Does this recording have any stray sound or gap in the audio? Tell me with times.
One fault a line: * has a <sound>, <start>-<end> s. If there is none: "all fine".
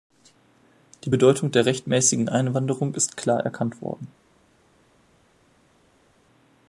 all fine